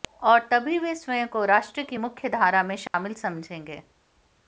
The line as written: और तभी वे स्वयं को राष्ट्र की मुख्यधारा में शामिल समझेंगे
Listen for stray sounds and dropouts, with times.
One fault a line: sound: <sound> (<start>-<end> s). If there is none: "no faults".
sound: dropout (2.9-2.9 s)